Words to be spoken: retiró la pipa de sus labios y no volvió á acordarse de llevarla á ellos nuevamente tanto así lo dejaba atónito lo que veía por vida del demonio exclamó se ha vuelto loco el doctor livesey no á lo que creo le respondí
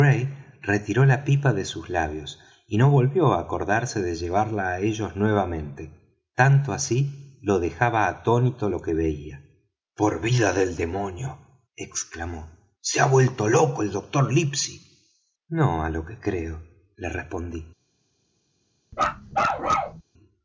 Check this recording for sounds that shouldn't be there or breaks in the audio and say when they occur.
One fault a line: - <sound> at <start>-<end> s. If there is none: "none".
- bark at 18.9-20.0 s